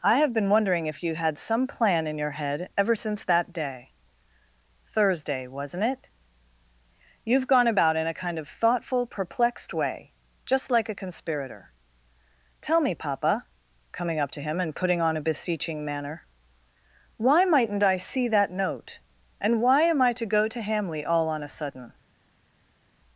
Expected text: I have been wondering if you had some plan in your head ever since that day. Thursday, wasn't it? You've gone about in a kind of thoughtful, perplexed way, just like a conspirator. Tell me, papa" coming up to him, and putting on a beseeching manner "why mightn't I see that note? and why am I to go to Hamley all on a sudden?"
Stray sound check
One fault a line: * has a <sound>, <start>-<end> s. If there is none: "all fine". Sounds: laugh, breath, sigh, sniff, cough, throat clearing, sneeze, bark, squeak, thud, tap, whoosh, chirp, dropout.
all fine